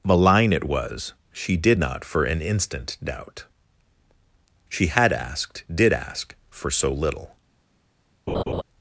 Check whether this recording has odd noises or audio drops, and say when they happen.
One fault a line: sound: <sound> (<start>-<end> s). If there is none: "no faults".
sound: laugh (8.3-8.6 s)